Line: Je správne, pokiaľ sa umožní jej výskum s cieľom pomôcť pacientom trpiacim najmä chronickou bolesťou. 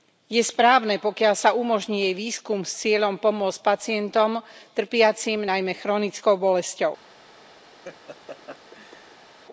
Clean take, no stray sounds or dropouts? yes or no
no